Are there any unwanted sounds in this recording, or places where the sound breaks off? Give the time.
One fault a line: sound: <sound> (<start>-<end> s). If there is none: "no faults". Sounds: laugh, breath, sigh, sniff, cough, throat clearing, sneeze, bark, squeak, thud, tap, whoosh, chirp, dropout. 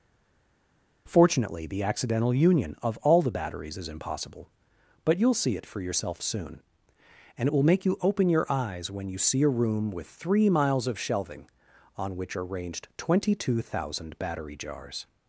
no faults